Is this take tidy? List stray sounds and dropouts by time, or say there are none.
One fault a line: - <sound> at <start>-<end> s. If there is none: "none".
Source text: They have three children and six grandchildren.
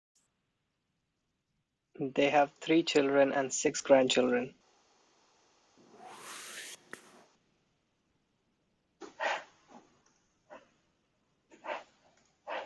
- whoosh at 5.8-7.3 s